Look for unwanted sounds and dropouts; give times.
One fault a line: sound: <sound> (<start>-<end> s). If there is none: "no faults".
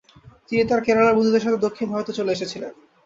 no faults